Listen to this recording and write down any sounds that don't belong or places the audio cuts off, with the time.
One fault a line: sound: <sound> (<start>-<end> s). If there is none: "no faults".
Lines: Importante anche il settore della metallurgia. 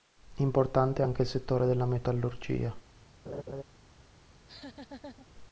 sound: laugh (3.3-3.6 s)
sound: laugh (4.3-5.3 s)